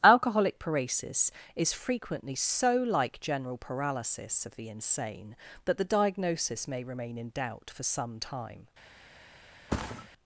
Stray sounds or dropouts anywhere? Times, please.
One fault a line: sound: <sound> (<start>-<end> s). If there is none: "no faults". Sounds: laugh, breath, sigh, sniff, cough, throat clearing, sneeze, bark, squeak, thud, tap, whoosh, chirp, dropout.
sound: thud (9.7-10.1 s)